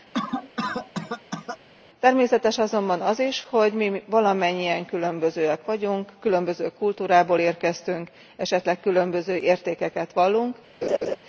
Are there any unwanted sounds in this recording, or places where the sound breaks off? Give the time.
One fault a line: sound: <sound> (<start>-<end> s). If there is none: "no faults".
sound: cough (0.1-1.6 s)
sound: laugh (10.8-11.2 s)